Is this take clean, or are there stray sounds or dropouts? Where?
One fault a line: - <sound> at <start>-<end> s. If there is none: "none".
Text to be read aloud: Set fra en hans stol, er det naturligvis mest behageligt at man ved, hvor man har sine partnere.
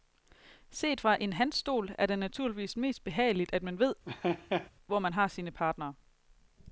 - laugh at 4.1-4.7 s